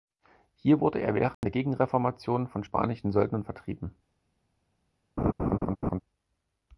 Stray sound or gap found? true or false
true